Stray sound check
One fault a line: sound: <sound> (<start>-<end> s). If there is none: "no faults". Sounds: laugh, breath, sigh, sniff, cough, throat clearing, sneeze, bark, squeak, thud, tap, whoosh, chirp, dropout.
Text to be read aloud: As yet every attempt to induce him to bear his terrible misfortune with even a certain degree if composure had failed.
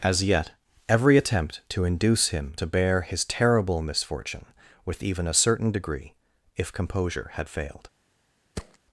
sound: thud (8.6-8.8 s)